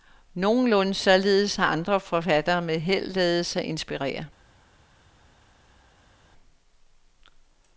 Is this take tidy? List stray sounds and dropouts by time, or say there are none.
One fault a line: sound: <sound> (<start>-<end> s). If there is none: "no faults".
no faults